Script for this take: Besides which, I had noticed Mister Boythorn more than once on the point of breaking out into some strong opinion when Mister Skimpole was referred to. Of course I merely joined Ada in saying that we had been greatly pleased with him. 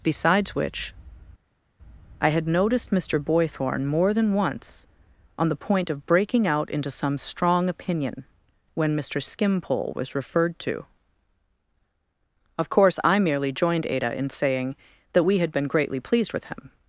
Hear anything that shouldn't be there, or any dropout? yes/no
no